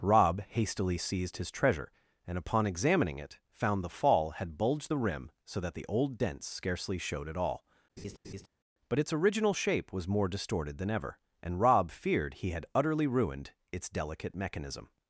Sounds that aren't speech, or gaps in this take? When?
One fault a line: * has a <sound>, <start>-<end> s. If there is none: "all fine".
* has a laugh, 8.0-8.5 s